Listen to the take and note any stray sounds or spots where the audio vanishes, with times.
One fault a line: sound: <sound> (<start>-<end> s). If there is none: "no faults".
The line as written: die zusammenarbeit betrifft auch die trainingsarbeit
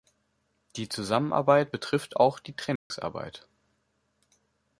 sound: dropout (2.8-2.9 s)